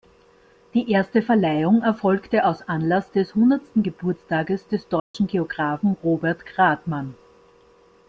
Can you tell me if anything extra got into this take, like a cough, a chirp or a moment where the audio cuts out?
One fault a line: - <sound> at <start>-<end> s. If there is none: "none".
- dropout at 5.0-5.1 s